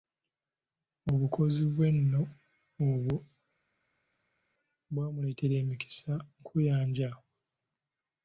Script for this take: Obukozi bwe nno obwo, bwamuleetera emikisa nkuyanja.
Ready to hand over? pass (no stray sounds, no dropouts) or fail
pass